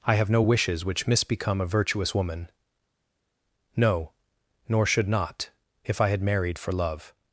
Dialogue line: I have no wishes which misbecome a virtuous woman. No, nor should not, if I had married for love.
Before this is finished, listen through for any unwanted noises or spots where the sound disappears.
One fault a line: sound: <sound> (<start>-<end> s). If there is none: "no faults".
no faults